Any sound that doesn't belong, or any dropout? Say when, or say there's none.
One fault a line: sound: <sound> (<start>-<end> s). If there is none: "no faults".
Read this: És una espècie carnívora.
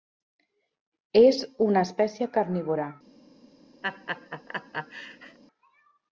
sound: laugh (3.8-5.4 s)